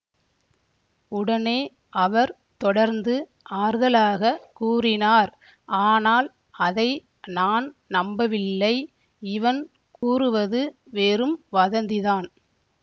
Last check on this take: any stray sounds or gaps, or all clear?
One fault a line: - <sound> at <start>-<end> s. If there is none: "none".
- dropout at 10.0-10.0 s